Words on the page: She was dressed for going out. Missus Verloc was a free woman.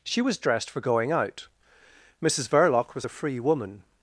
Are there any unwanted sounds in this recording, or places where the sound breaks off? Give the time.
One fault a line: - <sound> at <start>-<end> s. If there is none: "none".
none